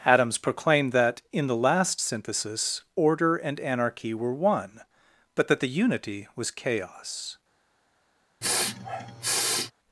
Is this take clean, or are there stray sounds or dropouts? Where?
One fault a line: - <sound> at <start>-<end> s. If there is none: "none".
- sniff at 8.4-9.7 s